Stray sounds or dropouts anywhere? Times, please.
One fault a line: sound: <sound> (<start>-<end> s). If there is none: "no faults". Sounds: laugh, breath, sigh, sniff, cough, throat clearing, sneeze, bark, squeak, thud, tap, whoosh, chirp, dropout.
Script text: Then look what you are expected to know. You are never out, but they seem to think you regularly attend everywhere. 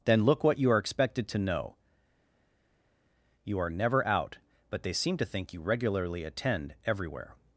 no faults